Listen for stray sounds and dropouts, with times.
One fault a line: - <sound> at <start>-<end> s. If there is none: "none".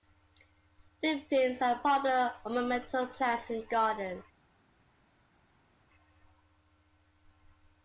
none